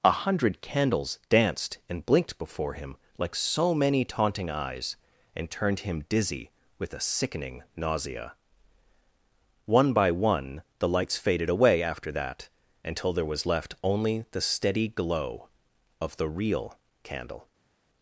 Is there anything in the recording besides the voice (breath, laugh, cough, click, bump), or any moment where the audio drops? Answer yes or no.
no